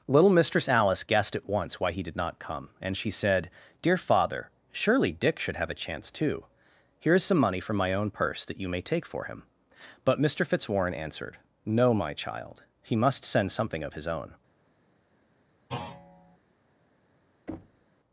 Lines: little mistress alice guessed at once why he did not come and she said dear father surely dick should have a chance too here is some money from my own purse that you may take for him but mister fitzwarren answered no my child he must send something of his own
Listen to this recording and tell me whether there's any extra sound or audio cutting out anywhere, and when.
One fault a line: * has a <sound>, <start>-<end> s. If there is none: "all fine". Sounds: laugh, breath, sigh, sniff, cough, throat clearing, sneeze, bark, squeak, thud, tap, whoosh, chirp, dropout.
* has a thud, 15.7-16.4 s
* has a thud, 17.5-17.9 s